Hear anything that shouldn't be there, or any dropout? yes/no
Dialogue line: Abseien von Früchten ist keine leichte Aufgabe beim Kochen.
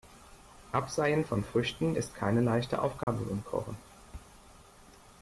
yes